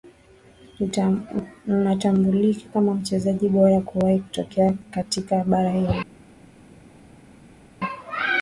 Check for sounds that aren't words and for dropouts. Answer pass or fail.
pass